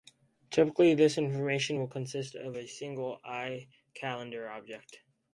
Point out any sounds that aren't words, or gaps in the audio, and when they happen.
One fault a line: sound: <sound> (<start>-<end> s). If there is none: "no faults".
no faults